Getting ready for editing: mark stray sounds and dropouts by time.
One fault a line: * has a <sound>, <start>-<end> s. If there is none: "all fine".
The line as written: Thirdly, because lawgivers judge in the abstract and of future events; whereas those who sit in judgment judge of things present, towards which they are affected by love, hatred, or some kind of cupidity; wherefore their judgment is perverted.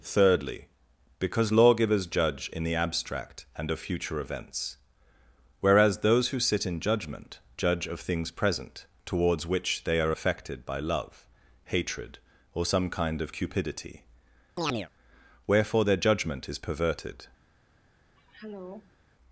* has a chirp, 14.6-14.9 s
* has a throat clearing, 18.2-19.0 s